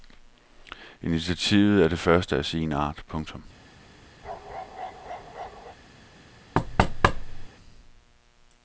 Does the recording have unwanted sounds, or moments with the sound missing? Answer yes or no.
yes